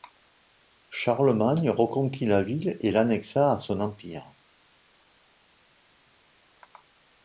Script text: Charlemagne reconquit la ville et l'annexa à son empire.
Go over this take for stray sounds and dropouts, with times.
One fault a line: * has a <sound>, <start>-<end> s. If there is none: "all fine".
all fine